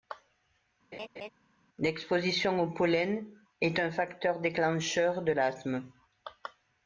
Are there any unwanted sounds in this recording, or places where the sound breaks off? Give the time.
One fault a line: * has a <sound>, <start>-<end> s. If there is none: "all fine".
* has a laugh, 0.9-1.3 s